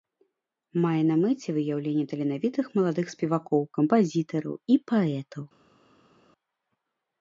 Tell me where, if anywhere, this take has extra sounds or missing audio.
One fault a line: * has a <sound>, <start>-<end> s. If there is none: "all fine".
all fine